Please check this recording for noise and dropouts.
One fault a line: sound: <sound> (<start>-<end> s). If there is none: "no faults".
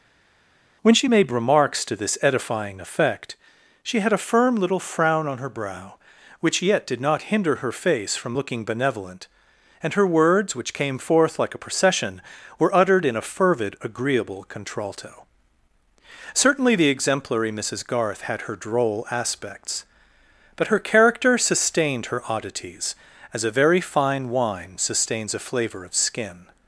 no faults